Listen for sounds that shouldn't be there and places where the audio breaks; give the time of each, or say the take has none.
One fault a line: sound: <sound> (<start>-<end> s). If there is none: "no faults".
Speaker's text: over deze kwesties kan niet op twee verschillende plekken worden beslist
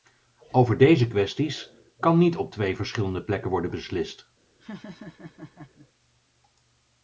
sound: laugh (4.6-5.9 s)